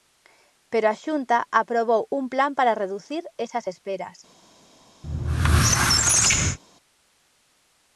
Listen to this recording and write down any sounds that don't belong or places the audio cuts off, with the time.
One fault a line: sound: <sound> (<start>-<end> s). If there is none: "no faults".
sound: squeak (5.0-6.6 s)